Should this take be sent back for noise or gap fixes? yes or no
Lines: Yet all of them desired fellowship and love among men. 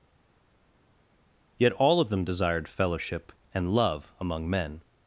no